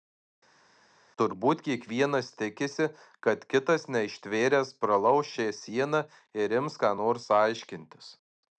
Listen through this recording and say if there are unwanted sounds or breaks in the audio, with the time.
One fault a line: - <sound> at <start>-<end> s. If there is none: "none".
none